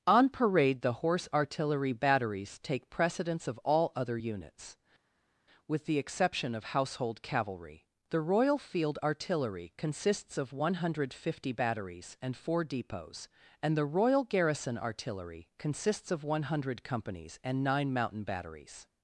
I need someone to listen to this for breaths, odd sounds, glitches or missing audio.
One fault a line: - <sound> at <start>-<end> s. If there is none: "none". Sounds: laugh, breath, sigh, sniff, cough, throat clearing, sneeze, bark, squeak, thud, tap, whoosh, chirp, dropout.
none